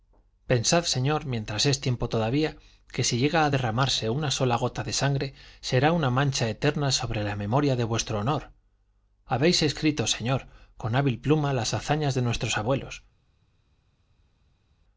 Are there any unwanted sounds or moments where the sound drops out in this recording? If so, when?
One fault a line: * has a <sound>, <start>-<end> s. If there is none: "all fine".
all fine